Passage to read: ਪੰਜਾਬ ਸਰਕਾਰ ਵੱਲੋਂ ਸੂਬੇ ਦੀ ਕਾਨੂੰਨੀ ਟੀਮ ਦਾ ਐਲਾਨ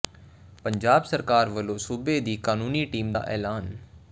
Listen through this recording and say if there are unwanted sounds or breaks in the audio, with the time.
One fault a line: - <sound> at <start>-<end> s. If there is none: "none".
none